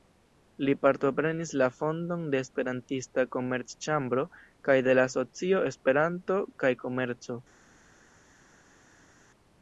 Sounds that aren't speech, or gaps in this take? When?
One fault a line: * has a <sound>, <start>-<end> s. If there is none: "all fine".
all fine